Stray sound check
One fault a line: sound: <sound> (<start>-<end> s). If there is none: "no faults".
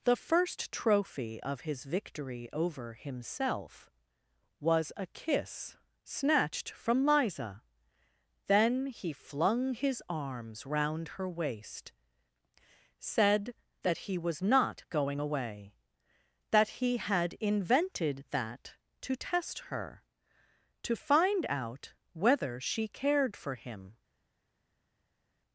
no faults